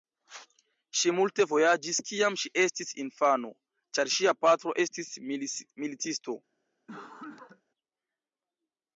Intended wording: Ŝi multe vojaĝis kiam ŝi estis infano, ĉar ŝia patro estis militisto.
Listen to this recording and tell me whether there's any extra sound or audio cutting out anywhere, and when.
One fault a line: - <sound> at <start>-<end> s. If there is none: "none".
- cough at 6.9-7.6 s